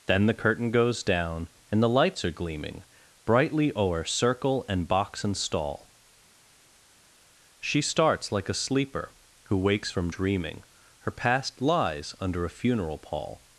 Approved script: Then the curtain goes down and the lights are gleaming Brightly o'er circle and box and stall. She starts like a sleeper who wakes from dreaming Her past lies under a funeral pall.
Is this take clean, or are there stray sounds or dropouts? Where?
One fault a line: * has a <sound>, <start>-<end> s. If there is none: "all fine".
all fine